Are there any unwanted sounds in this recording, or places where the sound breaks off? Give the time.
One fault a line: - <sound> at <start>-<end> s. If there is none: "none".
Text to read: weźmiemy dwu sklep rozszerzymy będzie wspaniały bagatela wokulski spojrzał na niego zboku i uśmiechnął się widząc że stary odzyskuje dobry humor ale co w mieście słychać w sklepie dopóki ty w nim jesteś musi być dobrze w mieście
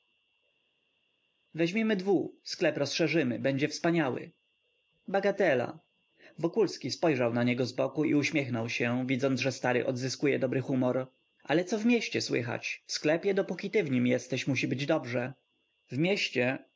none